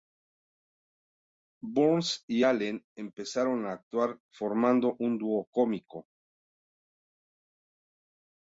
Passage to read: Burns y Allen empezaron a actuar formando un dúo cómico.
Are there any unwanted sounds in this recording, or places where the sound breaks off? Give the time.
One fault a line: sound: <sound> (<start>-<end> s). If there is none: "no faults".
no faults